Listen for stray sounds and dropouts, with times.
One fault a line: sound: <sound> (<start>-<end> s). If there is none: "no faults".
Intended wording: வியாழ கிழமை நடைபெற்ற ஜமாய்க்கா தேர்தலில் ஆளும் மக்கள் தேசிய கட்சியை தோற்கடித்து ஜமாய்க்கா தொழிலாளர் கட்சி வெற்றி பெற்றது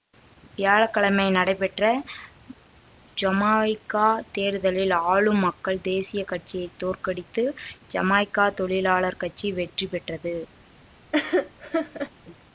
sound: laugh (11.1-12.1 s)